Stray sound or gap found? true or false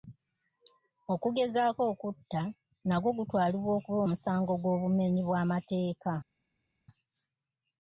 false